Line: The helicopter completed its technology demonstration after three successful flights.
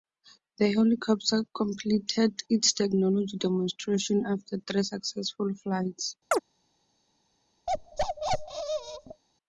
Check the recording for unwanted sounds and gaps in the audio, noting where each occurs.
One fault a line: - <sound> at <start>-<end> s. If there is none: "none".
- chirp at 6.3-6.4 s
- bark at 7.7-9.2 s